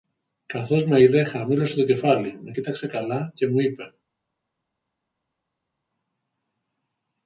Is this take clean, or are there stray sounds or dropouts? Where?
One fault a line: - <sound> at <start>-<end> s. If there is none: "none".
none